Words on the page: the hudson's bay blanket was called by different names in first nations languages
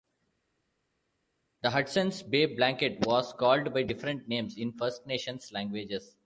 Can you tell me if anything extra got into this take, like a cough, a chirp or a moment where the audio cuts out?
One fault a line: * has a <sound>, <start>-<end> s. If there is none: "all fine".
all fine